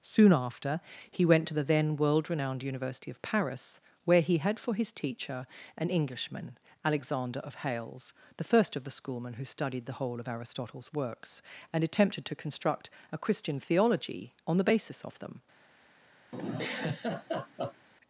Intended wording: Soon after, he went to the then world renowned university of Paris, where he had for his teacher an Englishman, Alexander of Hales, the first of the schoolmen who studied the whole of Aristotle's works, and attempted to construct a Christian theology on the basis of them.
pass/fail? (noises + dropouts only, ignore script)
fail